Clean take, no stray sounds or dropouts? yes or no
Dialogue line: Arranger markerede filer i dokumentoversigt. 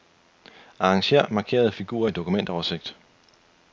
yes